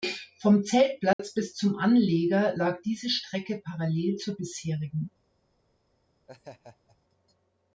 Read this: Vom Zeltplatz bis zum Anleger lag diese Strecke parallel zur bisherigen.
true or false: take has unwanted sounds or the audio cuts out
true